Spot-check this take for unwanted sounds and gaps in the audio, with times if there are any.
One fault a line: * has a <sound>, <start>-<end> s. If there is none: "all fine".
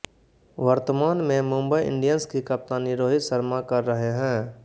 all fine